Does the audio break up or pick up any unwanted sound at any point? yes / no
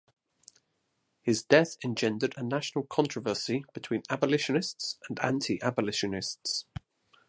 no